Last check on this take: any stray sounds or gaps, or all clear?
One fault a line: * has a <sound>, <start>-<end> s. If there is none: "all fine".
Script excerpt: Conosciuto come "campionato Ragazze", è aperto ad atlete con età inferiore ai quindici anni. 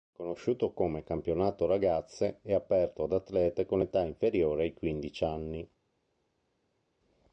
all fine